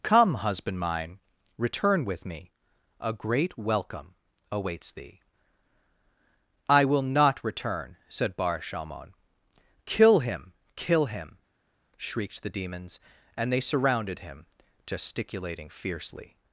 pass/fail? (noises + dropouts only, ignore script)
pass